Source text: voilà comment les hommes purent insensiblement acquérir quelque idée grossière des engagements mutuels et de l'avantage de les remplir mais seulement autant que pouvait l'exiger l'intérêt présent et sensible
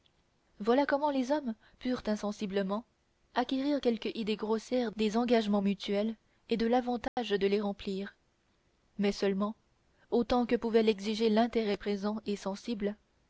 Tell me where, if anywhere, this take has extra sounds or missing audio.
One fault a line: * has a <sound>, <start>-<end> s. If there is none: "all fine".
* has a dropout, 7.1-7.2 s